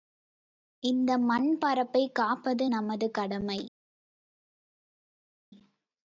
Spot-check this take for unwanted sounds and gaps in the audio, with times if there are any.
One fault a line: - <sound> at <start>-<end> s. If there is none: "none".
none